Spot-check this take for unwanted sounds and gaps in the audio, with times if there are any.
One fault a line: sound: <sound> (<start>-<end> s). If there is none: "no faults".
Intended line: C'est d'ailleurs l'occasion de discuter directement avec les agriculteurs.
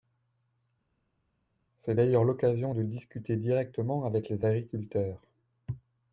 no faults